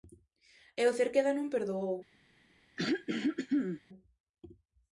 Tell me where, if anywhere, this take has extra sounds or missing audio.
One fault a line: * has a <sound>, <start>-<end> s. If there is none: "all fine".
* has a throat clearing, 2.8-3.8 s